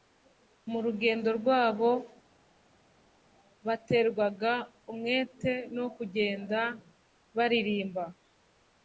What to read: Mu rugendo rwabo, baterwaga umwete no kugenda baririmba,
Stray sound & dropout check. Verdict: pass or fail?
pass